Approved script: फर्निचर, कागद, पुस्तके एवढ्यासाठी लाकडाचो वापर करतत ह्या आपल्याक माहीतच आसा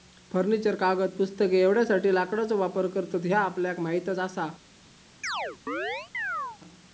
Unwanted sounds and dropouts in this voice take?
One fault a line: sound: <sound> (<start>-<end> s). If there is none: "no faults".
sound: chirp (5.2-6.6 s)